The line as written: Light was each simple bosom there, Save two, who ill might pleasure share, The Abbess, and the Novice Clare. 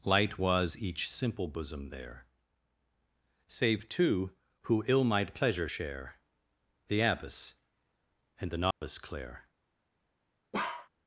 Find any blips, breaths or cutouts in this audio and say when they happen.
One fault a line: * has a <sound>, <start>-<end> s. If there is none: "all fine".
* has a dropout, 8.7-8.8 s
* has a bark, 10.5-10.9 s